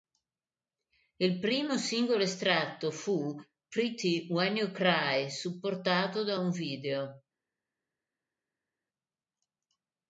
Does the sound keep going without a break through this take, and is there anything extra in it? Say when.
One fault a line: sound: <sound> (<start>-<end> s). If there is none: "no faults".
no faults